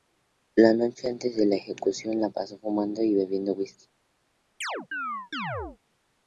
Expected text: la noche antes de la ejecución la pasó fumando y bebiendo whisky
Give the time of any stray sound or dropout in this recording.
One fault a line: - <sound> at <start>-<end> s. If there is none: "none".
- chirp at 4.6-5.8 s